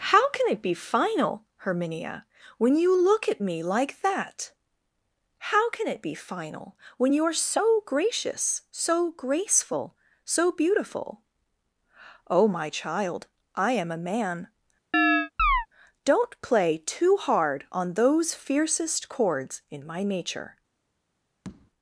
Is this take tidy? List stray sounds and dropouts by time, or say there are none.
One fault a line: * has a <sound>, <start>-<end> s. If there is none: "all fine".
* has a chirp, 14.9-15.7 s
* has a tap, 21.4-21.7 s